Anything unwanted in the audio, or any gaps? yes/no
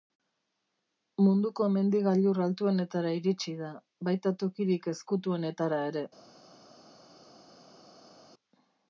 no